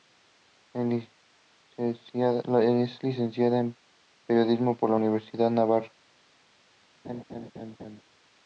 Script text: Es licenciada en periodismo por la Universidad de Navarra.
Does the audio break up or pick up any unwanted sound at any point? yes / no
yes